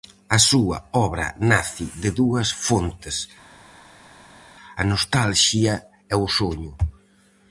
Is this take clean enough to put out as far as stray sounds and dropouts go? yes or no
yes